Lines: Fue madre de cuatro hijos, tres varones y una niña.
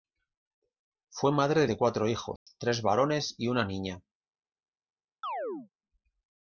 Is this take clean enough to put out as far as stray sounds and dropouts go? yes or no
no